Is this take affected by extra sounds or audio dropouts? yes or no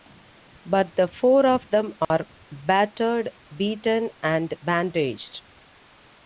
yes